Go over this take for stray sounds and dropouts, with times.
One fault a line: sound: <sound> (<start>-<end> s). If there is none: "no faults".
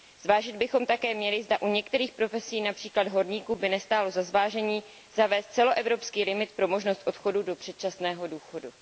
no faults